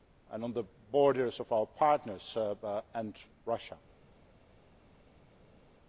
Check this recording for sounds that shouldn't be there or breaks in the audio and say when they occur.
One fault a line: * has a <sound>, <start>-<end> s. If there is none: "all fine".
all fine